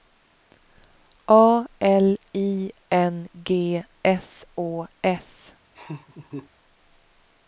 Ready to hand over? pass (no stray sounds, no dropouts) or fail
fail